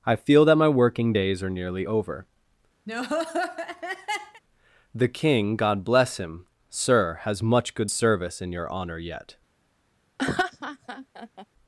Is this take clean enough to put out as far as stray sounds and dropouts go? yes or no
no